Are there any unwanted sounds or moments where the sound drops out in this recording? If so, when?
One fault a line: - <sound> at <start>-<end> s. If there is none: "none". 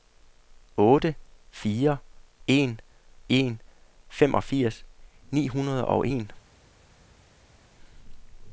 none